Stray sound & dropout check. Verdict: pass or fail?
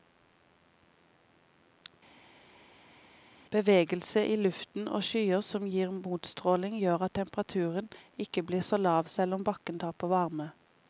pass